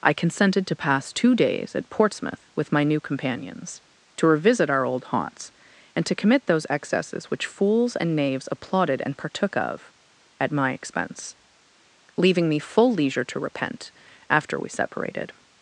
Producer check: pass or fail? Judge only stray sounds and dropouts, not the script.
pass